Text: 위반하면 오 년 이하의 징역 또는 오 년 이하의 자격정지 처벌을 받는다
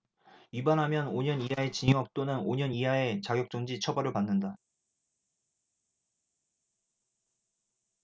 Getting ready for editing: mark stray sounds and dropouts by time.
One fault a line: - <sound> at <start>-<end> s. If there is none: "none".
none